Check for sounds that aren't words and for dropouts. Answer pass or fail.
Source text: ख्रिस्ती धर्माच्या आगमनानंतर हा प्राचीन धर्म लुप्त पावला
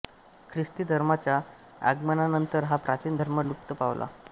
pass